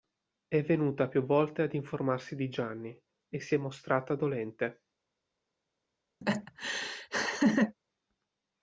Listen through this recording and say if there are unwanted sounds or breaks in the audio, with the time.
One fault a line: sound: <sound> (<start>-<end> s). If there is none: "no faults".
sound: laugh (6.2-7.8 s)